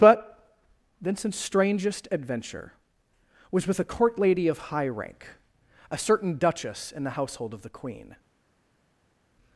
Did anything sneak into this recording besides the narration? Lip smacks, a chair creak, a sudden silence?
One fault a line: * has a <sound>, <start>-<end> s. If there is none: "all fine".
all fine